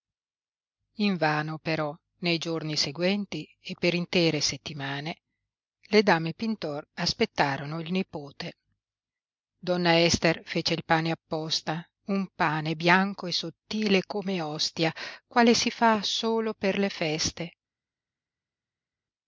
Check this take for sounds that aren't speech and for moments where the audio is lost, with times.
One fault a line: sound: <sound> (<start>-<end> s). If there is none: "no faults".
no faults